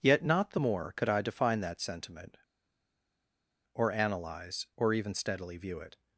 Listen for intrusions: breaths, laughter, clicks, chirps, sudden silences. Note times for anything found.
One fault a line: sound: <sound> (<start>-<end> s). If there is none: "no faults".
no faults